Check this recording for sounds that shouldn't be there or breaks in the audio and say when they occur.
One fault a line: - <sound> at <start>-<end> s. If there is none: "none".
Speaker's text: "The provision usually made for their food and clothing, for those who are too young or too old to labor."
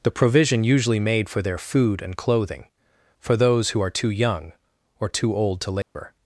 - dropout at 5.8-6.0 s